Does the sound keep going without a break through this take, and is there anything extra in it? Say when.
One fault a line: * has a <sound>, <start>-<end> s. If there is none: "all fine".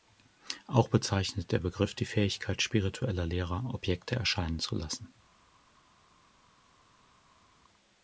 all fine